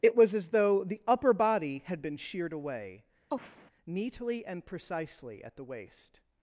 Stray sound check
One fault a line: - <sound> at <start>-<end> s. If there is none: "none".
- sigh at 3.3-3.7 s